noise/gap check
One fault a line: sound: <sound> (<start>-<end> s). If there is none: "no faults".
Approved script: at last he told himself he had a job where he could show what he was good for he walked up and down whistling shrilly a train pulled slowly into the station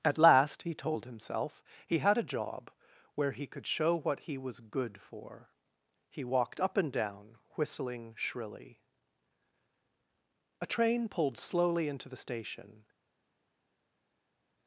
no faults